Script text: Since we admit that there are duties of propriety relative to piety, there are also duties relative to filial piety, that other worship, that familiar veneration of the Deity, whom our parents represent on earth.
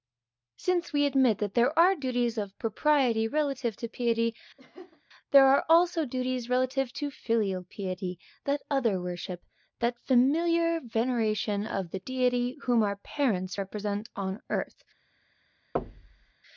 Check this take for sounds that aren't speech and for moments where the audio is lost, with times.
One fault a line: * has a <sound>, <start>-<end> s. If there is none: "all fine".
* has a laugh, 4.6-5.0 s
* has a thud, 15.7-16.3 s